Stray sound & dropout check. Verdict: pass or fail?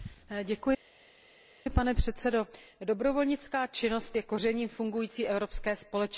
pass